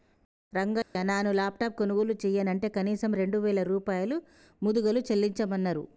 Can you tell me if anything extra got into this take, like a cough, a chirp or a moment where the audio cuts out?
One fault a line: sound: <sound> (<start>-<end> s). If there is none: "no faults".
sound: dropout (0.8-1.0 s)